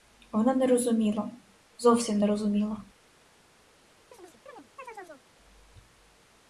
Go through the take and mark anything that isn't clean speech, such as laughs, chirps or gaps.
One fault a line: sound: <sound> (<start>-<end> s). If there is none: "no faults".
sound: chirp (4.1-5.2 s)